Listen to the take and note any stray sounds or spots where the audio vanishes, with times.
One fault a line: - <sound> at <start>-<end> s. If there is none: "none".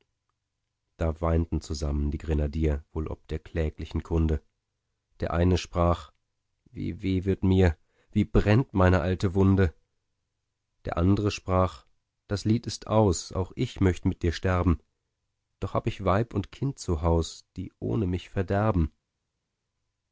none